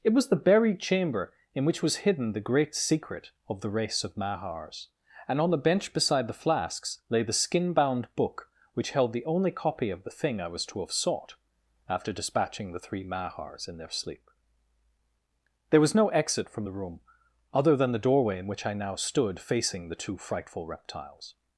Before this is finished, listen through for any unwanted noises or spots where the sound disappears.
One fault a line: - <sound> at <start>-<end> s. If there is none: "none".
none